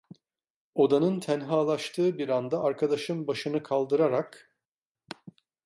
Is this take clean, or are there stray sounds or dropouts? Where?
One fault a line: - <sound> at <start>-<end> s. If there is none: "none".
none